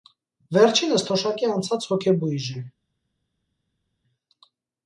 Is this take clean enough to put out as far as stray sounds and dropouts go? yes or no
yes